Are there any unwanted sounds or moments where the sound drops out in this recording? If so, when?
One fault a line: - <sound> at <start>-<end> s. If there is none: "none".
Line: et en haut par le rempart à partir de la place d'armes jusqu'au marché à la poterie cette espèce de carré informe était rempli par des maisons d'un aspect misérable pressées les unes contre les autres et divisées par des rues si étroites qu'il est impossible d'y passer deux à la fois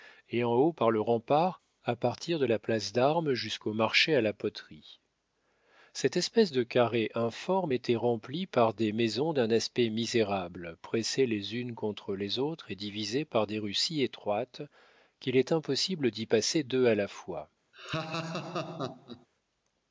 - laugh at 17.7-19.3 s